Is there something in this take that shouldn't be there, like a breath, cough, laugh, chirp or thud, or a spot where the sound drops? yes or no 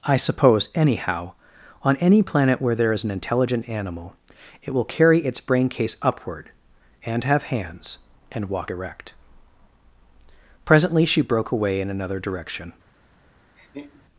yes